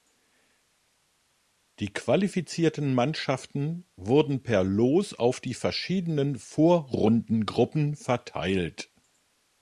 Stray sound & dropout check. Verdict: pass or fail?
pass